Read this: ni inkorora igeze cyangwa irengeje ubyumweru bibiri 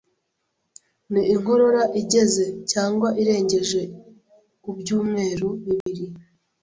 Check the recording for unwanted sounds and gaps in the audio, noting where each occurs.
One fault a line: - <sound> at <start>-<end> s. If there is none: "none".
- dropout at 5.8-5.9 s